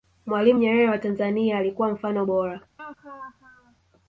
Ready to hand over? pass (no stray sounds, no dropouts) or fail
fail